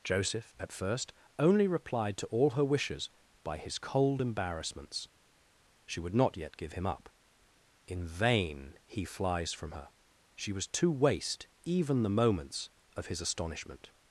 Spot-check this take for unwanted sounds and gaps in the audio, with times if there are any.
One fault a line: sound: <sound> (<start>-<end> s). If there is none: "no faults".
no faults